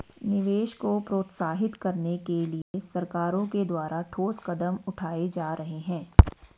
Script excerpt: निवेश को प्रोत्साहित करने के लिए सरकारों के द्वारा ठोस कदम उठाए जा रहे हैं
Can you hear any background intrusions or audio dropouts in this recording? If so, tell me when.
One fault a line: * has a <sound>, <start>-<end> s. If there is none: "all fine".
* has a dropout, 2.6-2.7 s